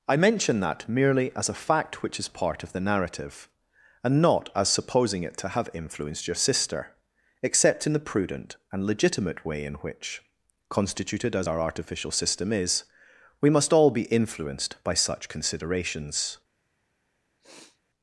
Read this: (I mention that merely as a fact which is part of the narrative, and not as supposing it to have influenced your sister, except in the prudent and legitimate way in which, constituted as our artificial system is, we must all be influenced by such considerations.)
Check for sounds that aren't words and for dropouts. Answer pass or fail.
fail